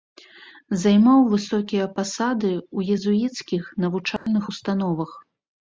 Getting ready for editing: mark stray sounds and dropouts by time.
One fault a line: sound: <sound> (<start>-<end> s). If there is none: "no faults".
sound: dropout (4.2-4.3 s)